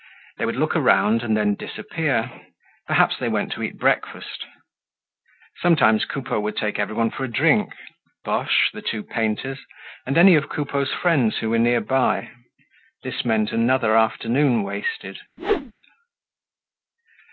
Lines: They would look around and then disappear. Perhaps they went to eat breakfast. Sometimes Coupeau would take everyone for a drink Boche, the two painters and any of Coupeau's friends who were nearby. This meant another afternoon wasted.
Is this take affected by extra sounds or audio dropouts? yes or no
yes